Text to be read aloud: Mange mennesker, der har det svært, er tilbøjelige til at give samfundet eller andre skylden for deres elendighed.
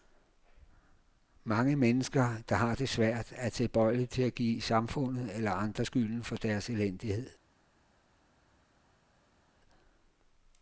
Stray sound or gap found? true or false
false